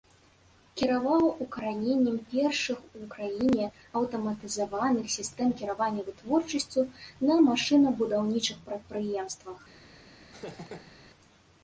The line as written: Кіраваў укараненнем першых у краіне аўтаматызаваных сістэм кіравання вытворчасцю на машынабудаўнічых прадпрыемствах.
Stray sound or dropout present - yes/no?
yes